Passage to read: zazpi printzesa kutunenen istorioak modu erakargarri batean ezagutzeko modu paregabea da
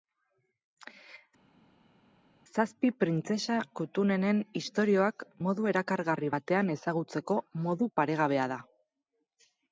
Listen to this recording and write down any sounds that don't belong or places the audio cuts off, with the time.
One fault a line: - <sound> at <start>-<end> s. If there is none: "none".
none